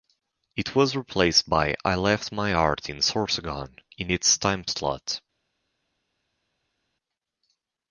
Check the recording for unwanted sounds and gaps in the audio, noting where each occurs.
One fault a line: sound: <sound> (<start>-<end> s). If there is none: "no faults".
no faults